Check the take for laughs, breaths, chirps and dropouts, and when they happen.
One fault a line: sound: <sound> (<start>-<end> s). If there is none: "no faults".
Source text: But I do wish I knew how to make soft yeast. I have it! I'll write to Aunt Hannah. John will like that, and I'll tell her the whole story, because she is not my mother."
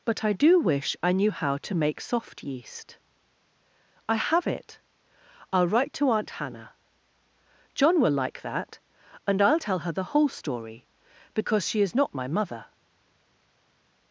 no faults